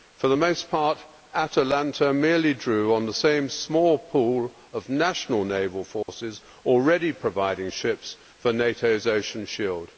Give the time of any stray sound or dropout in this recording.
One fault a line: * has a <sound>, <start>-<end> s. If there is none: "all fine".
* has a dropout, 6.0-6.1 s